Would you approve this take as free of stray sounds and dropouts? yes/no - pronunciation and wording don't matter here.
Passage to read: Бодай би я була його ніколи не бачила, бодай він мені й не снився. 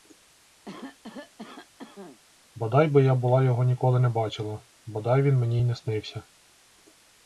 no